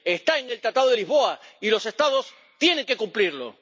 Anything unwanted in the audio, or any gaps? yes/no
no